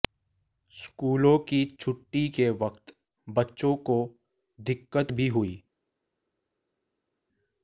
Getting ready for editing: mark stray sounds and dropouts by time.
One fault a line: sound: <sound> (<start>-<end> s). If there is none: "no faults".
no faults